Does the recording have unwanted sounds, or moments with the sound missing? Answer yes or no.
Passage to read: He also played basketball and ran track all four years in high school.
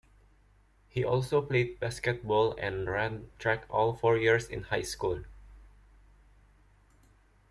no